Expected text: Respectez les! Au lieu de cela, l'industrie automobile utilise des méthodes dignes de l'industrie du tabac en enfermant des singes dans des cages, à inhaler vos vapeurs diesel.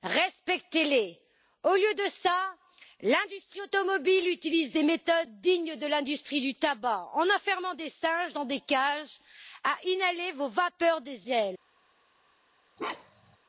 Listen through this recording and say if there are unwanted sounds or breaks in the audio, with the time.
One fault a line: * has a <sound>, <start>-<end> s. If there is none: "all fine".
* has a bark, 12.8-13.4 s